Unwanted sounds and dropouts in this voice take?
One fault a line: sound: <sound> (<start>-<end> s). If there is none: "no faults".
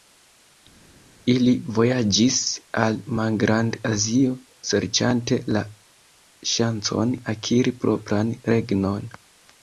no faults